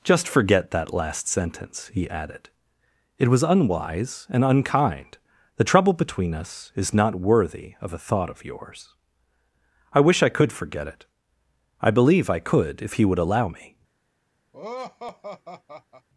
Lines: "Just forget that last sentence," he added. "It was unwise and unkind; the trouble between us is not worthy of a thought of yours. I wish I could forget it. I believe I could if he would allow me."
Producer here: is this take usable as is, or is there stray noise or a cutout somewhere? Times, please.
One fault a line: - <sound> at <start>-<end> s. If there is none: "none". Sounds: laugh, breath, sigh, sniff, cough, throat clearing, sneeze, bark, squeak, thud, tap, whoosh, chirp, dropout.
- laugh at 14.5-16.1 s